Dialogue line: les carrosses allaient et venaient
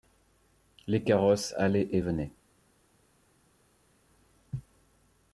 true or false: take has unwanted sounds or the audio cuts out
false